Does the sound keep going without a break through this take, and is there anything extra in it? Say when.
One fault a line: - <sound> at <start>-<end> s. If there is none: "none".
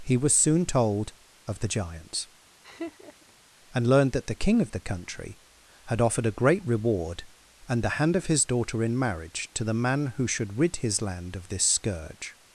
- laugh at 2.6-3.3 s